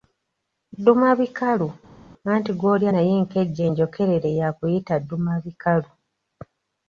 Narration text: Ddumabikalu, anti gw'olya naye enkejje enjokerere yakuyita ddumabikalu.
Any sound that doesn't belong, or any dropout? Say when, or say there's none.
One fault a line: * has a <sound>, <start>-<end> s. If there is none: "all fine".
all fine